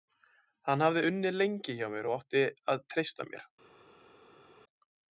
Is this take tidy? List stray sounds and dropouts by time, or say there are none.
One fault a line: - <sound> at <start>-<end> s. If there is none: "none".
none